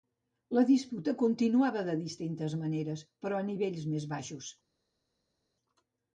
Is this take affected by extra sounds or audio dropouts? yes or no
no